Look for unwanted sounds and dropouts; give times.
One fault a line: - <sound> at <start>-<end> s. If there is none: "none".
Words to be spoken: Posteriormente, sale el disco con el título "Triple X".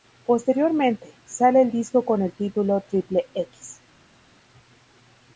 none